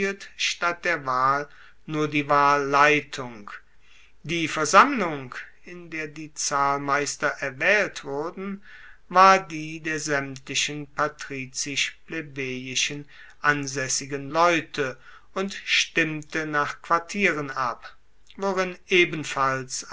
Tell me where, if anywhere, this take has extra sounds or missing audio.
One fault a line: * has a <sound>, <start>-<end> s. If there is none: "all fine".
all fine